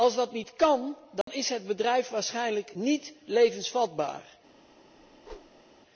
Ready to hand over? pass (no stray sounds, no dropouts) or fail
fail